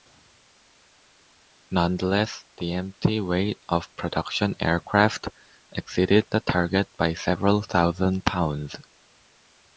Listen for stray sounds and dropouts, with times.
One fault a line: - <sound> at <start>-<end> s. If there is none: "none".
none